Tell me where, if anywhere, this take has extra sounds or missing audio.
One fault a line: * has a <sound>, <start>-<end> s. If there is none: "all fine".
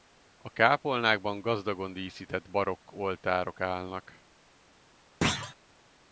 * has a thud, 5.2-5.6 s